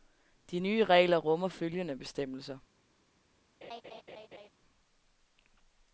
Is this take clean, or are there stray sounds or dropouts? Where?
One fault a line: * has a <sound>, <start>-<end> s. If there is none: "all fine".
* has a laugh, 3.6-4.5 s